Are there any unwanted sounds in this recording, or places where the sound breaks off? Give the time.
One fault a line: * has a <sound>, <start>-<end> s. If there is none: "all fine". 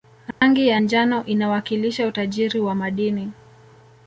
* has a dropout, 0.3-0.4 s